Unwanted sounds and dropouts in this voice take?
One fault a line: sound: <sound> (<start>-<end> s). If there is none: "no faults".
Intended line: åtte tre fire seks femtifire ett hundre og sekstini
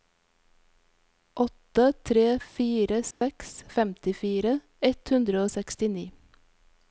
sound: dropout (3.1-3.2 s)